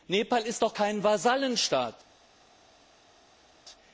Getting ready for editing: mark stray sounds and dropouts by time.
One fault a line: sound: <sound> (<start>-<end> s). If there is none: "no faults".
no faults